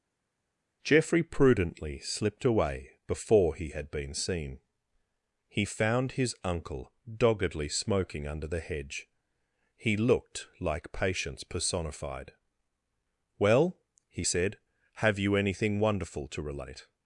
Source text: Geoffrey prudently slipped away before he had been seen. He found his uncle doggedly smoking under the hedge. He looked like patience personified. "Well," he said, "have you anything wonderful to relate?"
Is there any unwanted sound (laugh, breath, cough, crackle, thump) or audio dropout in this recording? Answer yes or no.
no